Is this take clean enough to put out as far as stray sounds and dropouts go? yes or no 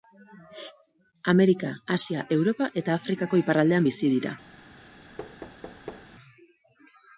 no